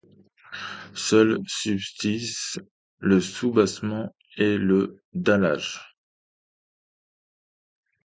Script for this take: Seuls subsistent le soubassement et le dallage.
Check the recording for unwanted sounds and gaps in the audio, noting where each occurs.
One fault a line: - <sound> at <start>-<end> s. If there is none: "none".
none